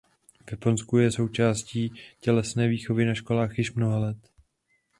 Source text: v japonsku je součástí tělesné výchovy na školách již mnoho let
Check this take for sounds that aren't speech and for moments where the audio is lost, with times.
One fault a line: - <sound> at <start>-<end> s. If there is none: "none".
none